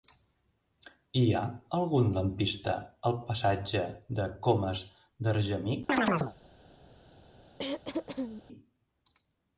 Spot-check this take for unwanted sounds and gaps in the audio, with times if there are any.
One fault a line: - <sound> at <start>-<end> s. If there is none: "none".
- chirp at 5.9-6.4 s
- throat clearing at 7.6-8.4 s